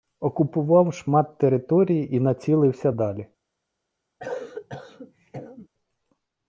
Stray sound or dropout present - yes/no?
yes